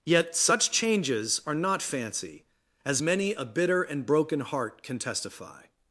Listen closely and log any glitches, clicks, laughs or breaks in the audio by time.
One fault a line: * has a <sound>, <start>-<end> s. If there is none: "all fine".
all fine